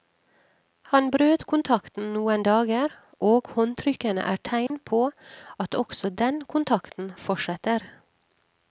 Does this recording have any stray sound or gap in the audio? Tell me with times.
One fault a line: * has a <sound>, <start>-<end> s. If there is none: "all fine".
* has a dropout, 4.7-4.7 s